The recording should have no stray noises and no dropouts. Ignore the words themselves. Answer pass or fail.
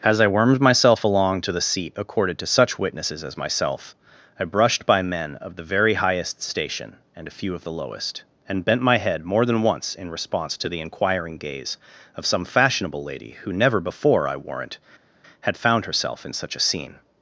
pass